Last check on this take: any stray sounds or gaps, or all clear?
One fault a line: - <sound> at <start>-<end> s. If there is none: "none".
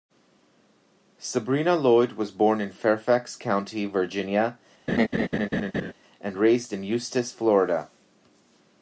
- laugh at 4.9-5.9 s